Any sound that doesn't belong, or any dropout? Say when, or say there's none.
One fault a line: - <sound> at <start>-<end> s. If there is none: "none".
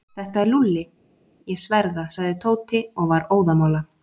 none